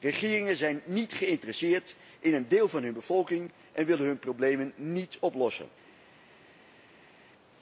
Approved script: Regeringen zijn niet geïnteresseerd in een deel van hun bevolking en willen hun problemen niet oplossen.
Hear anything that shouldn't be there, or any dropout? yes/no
no